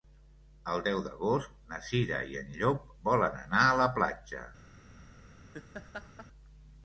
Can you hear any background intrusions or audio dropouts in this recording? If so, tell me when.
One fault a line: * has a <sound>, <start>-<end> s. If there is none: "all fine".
* has a laugh, 5.5-6.3 s